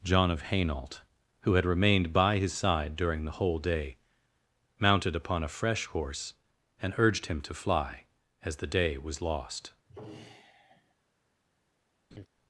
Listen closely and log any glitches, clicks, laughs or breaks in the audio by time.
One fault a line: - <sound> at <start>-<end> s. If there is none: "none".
- sigh at 9.9-10.9 s
- laugh at 12.1-12.3 s